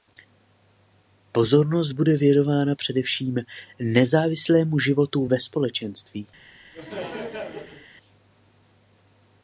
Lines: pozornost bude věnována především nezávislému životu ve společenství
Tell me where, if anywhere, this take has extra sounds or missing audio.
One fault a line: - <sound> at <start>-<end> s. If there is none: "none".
- laugh at 6.7-7.9 s